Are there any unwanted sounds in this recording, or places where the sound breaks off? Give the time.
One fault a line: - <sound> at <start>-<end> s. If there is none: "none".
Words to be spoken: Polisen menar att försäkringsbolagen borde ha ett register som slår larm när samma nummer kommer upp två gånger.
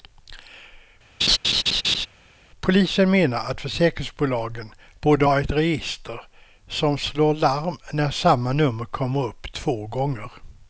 - laugh at 1.2-2.1 s